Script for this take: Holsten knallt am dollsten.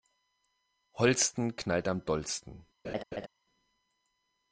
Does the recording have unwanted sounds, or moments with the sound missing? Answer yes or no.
yes